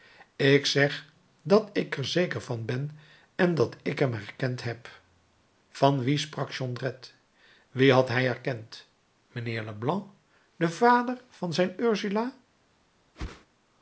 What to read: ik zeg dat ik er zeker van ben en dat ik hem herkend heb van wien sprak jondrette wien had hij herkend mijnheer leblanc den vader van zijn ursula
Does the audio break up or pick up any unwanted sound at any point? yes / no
yes